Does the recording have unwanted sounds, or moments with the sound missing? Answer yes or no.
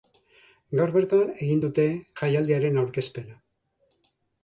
no